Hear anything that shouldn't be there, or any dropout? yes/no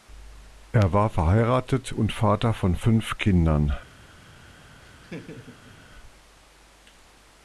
yes